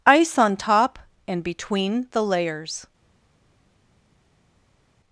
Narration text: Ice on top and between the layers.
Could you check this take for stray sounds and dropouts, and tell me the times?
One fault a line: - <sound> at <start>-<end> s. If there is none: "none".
none